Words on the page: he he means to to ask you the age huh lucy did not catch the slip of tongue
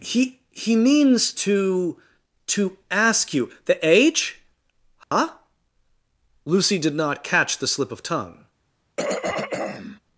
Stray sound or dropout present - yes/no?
yes